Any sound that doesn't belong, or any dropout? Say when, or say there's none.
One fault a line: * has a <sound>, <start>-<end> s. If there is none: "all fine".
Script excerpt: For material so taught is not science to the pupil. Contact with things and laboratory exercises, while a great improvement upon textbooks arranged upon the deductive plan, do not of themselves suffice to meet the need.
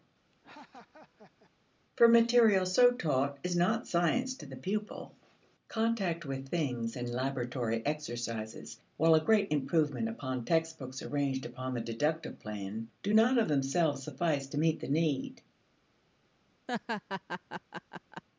* has a laugh, 0.3-1.5 s
* has a laugh, 16.7-18.2 s